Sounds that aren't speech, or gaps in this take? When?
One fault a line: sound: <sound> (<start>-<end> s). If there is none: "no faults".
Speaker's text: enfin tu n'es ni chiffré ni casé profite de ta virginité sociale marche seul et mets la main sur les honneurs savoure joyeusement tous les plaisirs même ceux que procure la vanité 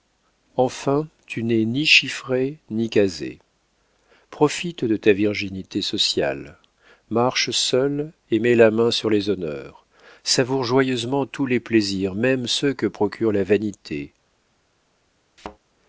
sound: thud (15.4-15.6 s)